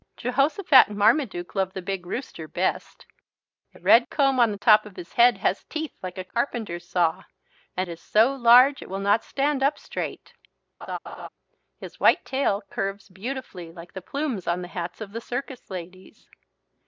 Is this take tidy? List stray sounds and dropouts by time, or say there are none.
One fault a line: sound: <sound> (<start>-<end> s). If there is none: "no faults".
sound: laugh (10.8-11.3 s)